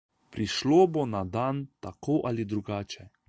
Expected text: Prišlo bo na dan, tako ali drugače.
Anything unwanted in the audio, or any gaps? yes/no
no